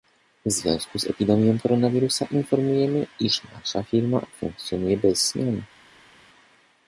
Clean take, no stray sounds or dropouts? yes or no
yes